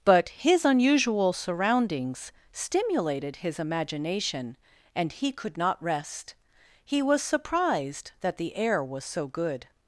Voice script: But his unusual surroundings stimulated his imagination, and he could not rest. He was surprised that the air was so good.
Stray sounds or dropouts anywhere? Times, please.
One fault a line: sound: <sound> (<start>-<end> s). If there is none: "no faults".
no faults